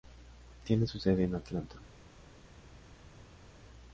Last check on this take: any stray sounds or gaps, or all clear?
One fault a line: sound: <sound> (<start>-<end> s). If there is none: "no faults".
no faults